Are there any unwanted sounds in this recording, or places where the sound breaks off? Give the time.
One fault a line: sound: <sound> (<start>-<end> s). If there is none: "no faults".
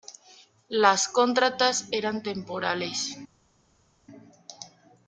no faults